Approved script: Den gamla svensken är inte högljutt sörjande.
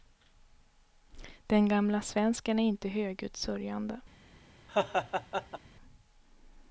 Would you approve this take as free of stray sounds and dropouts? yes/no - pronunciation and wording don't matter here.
no